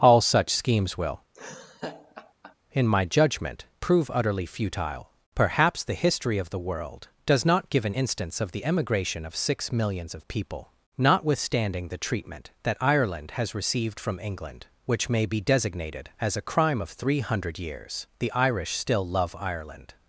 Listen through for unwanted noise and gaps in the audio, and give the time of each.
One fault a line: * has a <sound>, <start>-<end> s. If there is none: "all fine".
* has a laugh, 1.3-2.6 s